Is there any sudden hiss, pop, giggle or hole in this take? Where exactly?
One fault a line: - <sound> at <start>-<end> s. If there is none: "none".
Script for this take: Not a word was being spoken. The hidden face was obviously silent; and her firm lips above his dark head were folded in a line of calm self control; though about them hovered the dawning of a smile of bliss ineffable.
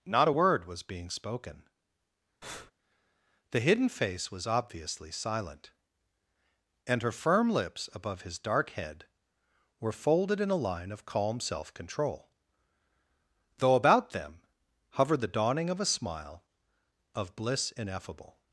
- breath at 2.4-2.7 s